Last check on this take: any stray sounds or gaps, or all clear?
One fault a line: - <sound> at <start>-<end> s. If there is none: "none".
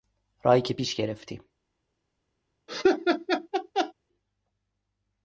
- laugh at 2.7-3.9 s